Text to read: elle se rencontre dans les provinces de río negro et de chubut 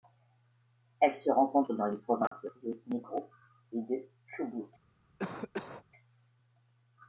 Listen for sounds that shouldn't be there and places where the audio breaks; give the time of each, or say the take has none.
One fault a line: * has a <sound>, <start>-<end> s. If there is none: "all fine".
* has a dropout, 2.3-2.3 s
* has a cough, 5.2-5.8 s